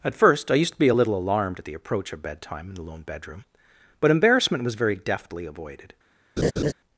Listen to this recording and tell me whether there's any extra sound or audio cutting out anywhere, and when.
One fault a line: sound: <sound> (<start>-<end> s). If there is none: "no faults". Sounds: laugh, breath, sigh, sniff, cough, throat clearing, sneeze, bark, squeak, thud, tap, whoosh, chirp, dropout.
sound: laugh (6.4-6.7 s)